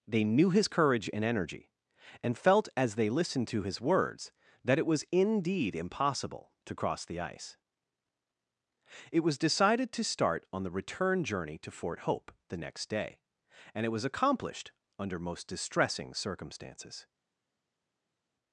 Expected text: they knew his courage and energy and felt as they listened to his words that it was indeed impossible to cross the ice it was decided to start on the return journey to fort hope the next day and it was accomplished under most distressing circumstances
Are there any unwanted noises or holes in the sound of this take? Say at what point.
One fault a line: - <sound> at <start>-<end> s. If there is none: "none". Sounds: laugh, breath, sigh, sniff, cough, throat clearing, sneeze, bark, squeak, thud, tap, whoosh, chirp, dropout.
none